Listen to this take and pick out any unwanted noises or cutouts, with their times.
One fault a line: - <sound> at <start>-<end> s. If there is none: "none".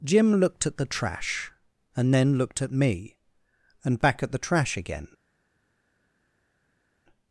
none